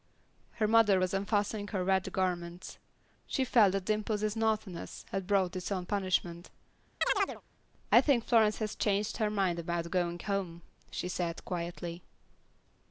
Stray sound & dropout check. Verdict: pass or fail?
fail